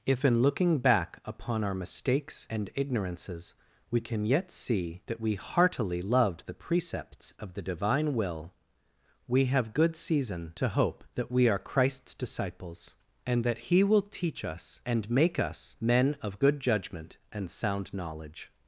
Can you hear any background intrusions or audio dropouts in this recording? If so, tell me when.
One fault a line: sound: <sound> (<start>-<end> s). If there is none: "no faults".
no faults